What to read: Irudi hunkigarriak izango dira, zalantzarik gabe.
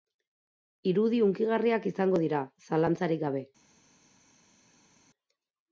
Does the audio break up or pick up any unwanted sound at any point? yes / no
no